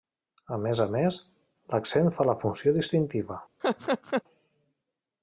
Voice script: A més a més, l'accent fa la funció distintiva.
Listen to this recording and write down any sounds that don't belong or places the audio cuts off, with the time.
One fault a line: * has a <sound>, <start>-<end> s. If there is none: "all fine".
* has a laugh, 3.6-4.2 s